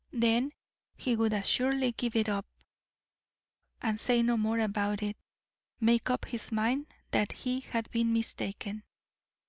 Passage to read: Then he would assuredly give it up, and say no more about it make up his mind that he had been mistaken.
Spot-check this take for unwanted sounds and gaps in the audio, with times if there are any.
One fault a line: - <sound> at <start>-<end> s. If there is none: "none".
none